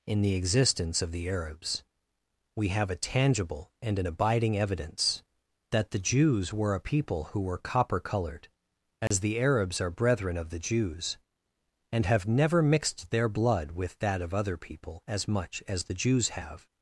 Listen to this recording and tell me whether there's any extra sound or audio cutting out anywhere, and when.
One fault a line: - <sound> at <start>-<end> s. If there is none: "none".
- dropout at 9.1-9.1 s